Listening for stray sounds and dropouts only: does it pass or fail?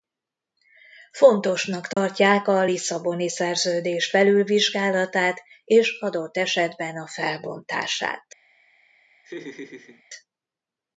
fail